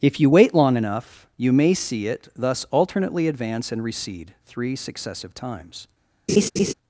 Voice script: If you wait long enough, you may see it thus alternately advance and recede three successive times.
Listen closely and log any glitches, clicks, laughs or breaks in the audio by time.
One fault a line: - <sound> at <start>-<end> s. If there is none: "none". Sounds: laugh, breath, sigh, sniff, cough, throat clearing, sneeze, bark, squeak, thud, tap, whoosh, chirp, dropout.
- laugh at 6.3-6.7 s